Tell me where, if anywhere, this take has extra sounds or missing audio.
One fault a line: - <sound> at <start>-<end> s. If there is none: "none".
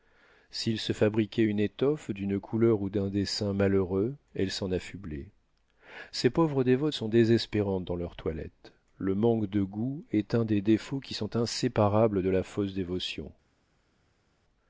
none